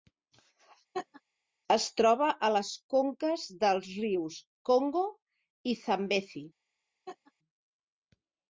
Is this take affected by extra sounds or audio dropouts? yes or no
yes